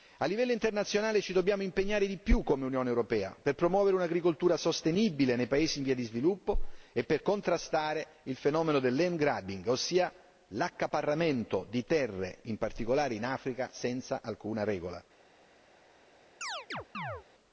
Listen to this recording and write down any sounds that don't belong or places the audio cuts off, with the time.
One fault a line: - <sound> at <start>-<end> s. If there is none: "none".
- chirp at 16.4-17.2 s